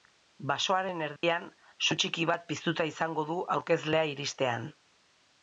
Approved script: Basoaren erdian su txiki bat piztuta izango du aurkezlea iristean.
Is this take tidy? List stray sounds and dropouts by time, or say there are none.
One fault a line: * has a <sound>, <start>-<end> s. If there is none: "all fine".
* has a dropout, 1.2-1.2 s